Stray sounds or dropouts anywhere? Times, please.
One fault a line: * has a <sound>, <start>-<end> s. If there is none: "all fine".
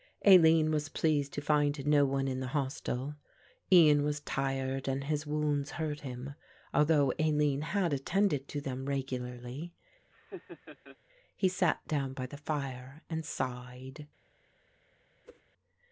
* has a laugh, 10.1-11.0 s
* has a whoosh, 15.2-15.4 s